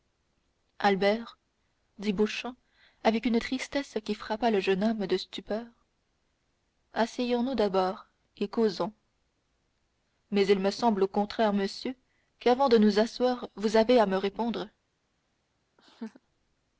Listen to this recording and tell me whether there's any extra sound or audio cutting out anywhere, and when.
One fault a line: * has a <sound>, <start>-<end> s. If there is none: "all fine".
* has a laugh, 15.8-16.2 s